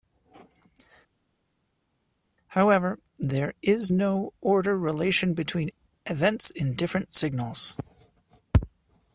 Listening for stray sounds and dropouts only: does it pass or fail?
pass